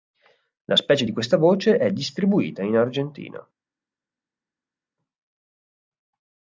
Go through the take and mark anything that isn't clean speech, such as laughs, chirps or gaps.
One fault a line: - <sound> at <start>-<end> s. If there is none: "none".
none